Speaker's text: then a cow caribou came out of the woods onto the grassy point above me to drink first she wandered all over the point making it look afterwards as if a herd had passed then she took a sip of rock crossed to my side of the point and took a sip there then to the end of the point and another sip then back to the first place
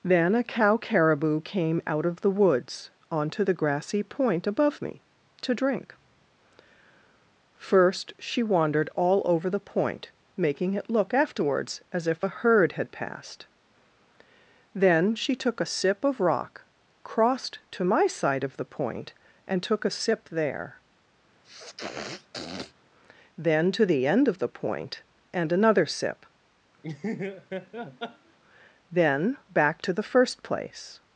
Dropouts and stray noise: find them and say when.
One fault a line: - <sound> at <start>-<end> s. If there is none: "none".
- sniff at 21.4-22.7 s
- laugh at 26.8-28.4 s